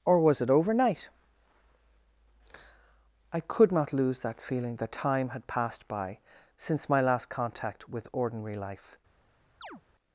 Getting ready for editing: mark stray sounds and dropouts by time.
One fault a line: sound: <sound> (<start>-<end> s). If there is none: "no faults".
sound: chirp (9.6-9.8 s)